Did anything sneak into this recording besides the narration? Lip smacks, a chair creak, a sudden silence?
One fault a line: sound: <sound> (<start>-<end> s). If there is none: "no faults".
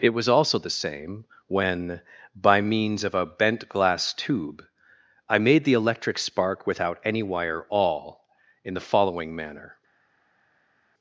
no faults